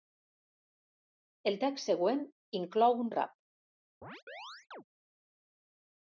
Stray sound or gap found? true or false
true